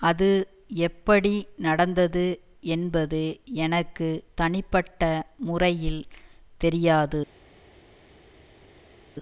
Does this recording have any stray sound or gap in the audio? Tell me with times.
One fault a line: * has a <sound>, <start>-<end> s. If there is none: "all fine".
all fine